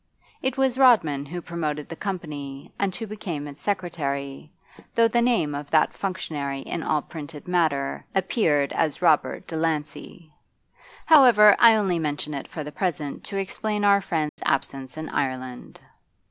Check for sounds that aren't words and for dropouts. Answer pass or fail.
fail